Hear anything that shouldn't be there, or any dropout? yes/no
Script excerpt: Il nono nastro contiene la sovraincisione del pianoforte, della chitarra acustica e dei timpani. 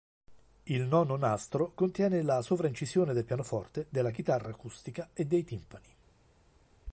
no